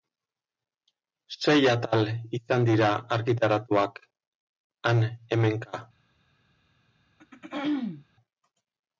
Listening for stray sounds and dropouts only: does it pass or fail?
fail